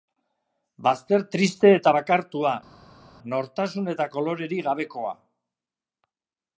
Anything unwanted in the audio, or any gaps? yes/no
no